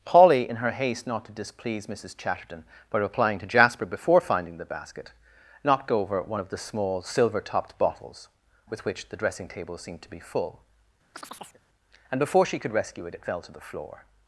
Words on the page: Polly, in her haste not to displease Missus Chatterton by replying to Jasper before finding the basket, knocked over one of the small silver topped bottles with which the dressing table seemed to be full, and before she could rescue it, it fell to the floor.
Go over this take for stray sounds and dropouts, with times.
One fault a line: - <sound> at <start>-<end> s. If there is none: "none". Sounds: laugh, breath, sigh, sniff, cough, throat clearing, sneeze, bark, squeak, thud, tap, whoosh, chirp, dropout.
- chirp at 11.1-11.6 s